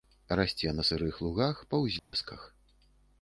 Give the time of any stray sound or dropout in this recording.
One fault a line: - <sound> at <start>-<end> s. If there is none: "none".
- dropout at 2.0-2.1 s